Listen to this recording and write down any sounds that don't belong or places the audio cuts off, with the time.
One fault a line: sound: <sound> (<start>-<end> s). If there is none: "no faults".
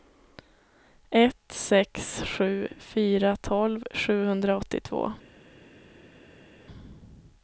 no faults